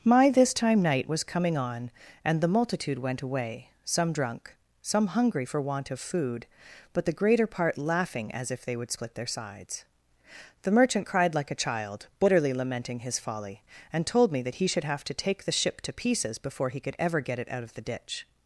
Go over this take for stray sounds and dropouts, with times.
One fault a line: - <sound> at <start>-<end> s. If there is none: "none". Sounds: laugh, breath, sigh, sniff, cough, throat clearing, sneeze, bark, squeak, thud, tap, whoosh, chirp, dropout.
none